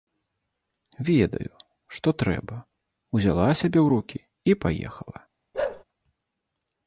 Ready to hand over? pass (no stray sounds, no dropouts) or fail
fail